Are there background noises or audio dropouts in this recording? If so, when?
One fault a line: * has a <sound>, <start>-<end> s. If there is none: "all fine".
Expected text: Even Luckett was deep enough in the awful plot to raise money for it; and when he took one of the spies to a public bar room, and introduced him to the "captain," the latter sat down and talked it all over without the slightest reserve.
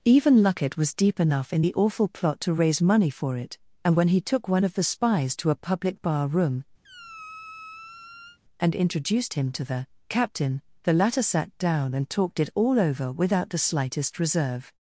* has a squeak, 6.8-8.4 s